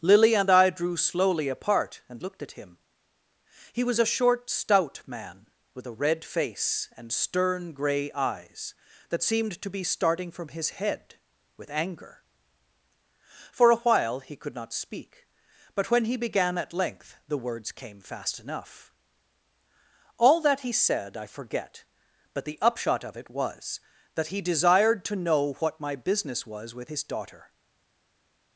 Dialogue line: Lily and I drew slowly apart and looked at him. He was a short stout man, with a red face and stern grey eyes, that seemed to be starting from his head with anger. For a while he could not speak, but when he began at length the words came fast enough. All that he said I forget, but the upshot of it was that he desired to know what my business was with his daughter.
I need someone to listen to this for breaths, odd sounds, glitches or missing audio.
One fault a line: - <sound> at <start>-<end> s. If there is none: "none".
none